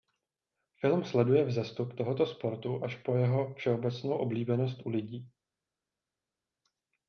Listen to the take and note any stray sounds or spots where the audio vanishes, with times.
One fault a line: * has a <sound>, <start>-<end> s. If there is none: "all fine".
all fine